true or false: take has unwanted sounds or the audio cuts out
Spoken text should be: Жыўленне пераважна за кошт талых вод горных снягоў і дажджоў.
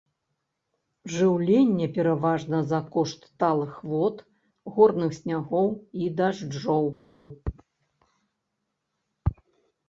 false